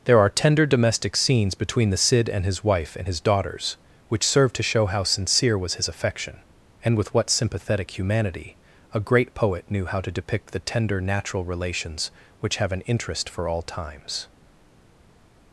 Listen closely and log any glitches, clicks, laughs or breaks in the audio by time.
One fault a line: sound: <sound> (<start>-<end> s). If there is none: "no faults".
no faults